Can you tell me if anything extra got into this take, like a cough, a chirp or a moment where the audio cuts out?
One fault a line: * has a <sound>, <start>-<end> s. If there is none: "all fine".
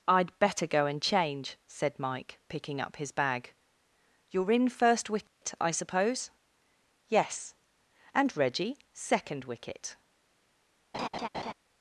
* has a dropout, 5.3-5.4 s
* has a laugh, 10.9-11.5 s